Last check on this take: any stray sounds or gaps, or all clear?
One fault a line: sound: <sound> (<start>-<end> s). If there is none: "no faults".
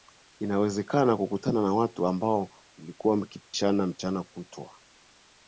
sound: dropout (3.4-3.5 s)